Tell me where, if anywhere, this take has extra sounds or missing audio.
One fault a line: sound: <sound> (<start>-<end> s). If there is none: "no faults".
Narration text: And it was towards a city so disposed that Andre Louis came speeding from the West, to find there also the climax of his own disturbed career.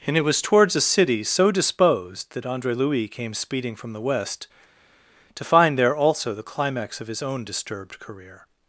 no faults